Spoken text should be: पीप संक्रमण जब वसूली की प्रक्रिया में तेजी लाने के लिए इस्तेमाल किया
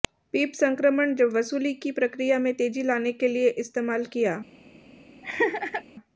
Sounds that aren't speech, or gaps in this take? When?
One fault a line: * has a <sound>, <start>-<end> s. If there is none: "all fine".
* has a laugh, 5.2-5.8 s